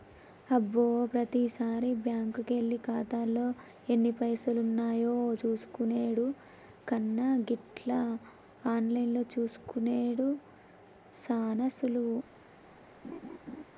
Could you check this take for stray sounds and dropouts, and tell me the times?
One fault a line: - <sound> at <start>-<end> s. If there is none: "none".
- laugh at 13.0-13.6 s